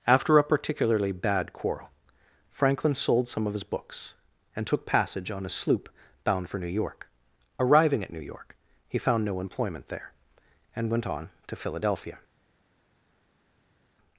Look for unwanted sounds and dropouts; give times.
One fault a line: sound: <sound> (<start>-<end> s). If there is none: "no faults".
no faults